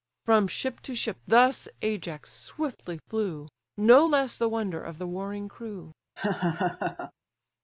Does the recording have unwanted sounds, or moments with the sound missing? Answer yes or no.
yes